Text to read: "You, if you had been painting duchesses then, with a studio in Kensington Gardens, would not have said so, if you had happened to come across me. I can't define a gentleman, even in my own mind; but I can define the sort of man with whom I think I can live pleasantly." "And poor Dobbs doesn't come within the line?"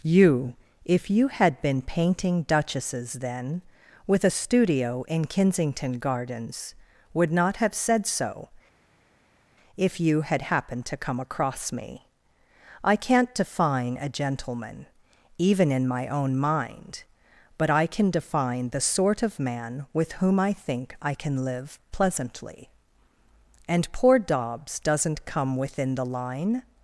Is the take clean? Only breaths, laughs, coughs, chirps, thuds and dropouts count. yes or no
yes